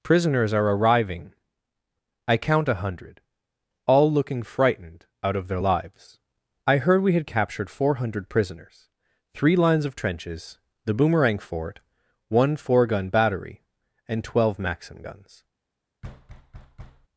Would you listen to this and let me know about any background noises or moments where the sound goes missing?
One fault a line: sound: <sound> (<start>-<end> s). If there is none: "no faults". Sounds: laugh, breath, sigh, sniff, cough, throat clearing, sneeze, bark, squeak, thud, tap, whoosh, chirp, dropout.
sound: thud (16.0-17.1 s)